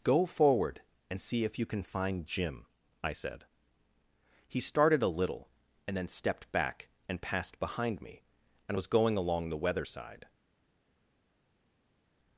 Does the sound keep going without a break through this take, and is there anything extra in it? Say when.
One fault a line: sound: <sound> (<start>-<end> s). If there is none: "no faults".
no faults